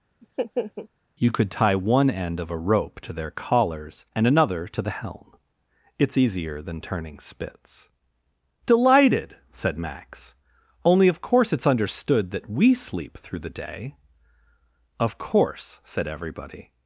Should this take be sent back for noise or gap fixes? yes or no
yes